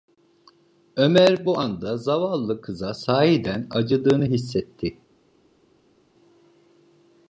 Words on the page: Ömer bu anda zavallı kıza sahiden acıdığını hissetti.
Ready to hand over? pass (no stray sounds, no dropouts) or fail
pass